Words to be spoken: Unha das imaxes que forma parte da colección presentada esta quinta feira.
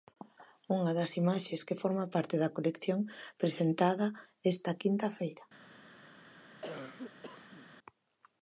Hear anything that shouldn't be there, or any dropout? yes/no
yes